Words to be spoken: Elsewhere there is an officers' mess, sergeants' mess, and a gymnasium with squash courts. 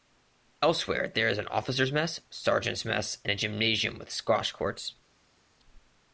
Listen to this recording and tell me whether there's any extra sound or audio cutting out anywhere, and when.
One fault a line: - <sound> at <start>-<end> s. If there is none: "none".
none